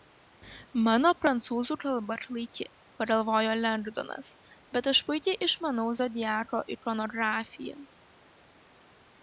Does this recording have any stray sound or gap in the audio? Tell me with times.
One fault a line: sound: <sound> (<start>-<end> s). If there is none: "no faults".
no faults